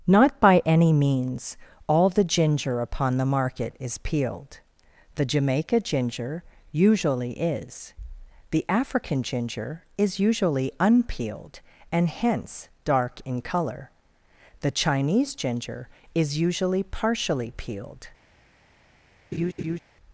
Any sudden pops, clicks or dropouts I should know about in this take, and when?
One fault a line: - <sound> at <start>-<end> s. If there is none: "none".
- laugh at 19.3-19.8 s